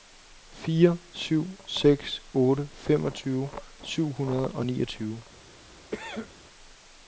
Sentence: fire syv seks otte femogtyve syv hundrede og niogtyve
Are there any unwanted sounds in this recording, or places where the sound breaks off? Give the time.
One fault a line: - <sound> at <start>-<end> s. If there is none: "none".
- cough at 5.9-6.3 s